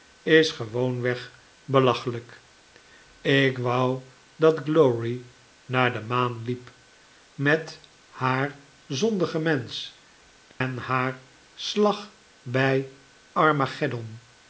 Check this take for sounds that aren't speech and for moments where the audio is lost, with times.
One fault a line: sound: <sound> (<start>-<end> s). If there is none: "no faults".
sound: dropout (10.5-10.6 s)